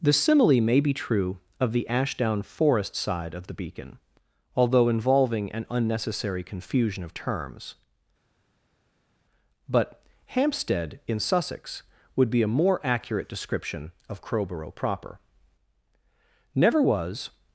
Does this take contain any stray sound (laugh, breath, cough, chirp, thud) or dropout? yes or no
no